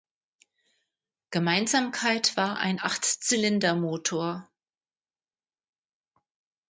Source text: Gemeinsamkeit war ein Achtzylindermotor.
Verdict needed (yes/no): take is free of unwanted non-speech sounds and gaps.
yes